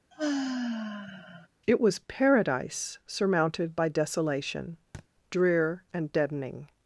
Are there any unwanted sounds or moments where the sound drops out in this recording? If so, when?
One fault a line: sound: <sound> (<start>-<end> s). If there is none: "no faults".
sound: sigh (0.1-1.5 s)
sound: thud (4.9-5.1 s)